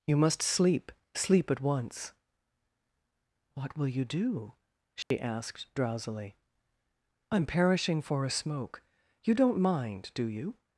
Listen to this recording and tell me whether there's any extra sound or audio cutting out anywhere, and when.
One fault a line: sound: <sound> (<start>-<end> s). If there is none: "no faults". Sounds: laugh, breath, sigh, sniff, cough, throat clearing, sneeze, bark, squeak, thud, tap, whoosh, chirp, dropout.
sound: dropout (5.0-5.1 s)